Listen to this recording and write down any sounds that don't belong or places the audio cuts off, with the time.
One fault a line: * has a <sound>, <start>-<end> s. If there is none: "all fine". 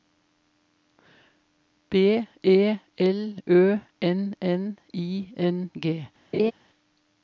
* has a laugh, 6.3-6.5 s